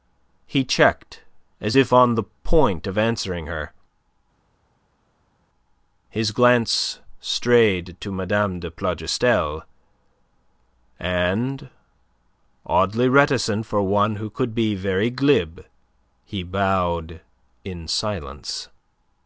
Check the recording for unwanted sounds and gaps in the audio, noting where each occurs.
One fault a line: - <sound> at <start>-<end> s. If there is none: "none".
none